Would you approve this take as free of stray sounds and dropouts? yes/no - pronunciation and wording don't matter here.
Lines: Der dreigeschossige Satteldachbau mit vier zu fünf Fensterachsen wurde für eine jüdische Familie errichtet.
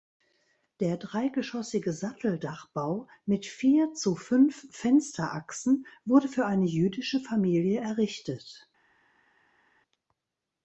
yes